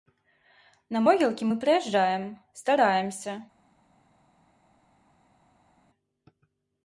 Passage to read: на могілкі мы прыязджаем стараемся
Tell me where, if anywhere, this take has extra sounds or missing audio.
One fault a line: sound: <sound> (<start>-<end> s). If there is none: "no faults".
no faults